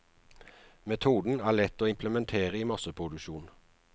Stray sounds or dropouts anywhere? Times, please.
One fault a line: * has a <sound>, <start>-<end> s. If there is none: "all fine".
all fine